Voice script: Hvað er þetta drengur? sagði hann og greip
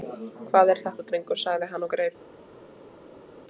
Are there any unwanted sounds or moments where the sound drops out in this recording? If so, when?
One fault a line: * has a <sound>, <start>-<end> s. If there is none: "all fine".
all fine